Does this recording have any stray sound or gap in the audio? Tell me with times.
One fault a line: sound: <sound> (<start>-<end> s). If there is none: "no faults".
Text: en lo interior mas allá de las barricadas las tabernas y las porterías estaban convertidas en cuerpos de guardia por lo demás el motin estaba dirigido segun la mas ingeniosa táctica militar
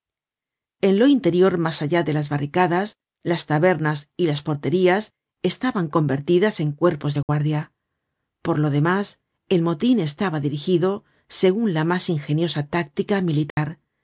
sound: dropout (7.2-7.3 s)
sound: dropout (13.5-13.6 s)